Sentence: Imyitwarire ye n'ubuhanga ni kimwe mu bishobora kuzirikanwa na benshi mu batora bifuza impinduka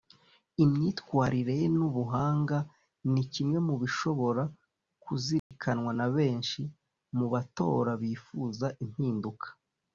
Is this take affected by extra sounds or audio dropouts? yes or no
yes